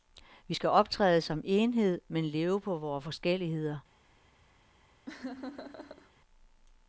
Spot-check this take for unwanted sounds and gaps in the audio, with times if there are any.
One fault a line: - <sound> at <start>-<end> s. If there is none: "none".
- laugh at 5.1-6.1 s